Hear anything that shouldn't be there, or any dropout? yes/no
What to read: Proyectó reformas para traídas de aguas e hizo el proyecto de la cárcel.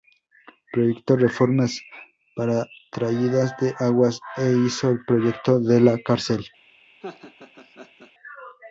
yes